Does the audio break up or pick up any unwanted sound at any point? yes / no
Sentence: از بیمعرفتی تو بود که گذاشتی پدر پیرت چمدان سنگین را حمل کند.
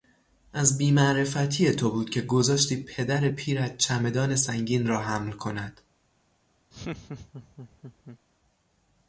yes